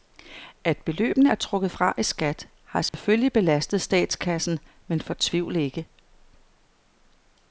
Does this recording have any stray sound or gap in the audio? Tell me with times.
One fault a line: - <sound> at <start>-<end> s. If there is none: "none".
- dropout at 2.9-2.9 s